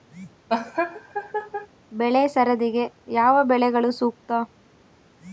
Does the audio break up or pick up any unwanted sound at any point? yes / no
yes